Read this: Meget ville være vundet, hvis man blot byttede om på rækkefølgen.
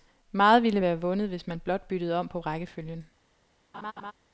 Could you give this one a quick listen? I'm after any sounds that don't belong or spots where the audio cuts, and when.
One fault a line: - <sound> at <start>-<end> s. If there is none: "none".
- laugh at 3.7-4.1 s